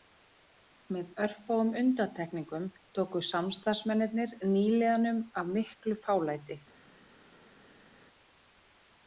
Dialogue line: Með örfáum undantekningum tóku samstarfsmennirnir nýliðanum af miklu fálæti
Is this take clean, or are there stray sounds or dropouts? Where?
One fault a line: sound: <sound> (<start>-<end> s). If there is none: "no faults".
no faults